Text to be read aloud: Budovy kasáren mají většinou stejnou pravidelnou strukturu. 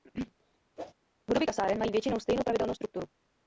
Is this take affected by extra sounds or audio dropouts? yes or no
yes